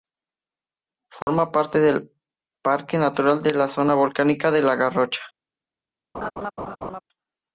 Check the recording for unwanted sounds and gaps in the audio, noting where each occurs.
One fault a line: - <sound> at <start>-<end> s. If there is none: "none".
- dropout at 1.2-1.3 s
- laugh at 6.1-7.0 s